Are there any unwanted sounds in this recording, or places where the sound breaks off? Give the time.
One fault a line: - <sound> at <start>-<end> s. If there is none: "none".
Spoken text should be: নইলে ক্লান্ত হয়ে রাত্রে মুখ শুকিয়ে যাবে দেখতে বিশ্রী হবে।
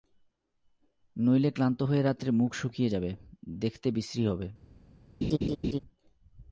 - laugh at 5.2-5.8 s